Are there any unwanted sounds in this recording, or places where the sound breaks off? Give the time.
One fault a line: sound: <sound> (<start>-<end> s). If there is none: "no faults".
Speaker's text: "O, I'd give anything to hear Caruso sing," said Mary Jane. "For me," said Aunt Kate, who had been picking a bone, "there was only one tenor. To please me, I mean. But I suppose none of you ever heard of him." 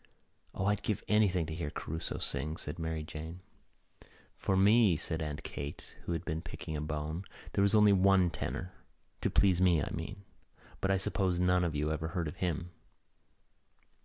no faults